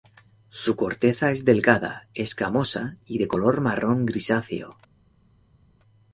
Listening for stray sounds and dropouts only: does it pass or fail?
pass